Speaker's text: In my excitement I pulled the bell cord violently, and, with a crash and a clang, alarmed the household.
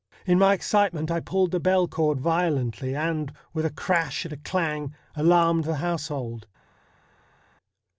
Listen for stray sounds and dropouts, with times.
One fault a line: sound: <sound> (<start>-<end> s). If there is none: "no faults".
no faults